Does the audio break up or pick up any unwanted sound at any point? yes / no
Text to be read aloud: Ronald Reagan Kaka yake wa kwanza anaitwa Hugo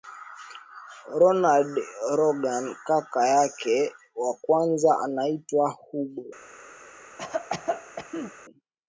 yes